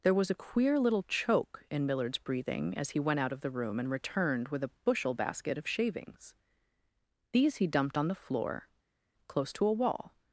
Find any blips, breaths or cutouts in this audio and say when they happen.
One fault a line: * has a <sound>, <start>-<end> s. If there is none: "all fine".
all fine